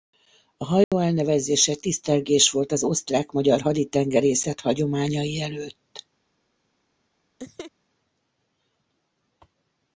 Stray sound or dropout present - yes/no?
yes